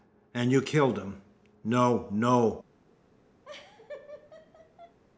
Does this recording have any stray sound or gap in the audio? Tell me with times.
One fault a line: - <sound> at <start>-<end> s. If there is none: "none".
- laugh at 3.4-5.0 s